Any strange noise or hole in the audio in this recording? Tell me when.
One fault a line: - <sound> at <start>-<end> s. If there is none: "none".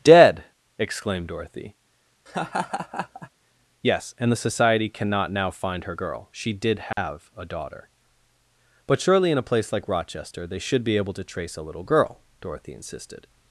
- laugh at 2.3-3.3 s
- dropout at 6.9-7.0 s